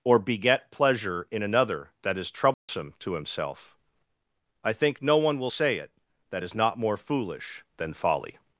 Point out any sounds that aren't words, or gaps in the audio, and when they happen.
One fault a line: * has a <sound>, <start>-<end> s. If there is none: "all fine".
* has a dropout, 2.5-2.7 s